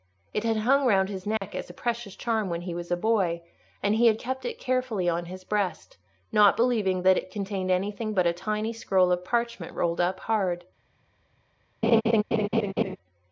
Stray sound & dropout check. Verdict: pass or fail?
fail